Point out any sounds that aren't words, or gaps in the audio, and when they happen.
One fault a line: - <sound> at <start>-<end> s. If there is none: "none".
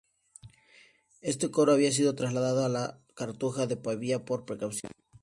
none